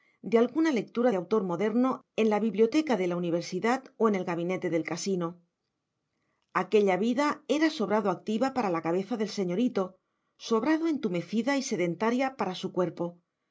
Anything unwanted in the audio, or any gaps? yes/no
no